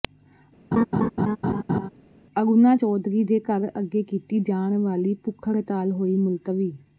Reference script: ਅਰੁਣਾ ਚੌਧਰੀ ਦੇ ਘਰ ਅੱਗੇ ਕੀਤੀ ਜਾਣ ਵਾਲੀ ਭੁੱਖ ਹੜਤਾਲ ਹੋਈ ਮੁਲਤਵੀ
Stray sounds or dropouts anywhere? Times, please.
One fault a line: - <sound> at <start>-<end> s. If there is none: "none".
- laugh at 0.7-1.9 s